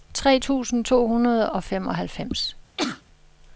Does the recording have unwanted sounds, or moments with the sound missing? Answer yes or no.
yes